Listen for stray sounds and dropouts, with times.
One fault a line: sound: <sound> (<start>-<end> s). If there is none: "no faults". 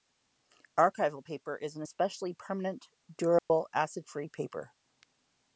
sound: dropout (3.4-3.5 s)